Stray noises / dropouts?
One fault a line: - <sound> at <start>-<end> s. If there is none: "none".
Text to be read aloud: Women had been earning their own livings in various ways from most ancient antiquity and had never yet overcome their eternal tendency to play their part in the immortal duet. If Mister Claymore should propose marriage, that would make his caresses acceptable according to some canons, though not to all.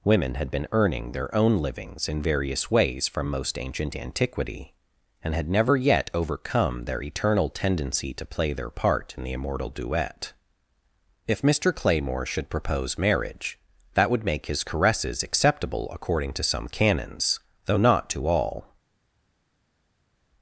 none